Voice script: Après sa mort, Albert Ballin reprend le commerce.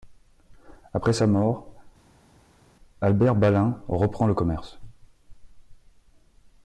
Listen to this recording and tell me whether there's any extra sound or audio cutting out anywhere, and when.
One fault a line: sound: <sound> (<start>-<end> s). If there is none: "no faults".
no faults